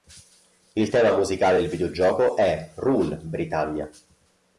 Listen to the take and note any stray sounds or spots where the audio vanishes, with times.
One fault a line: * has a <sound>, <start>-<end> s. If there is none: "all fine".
all fine